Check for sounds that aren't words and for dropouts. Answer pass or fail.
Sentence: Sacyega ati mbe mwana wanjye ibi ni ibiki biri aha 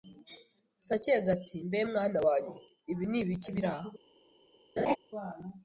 fail